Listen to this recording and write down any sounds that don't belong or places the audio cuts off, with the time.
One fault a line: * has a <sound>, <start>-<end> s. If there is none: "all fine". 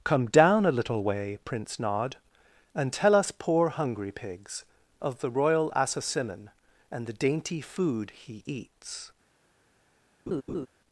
* has a laugh, 10.3-10.7 s